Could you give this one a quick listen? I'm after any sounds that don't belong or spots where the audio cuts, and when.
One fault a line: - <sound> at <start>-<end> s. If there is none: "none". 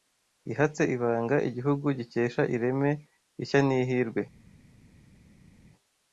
none